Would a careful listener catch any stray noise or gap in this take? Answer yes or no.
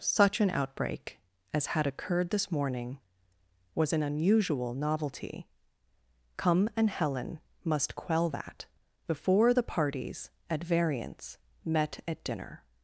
no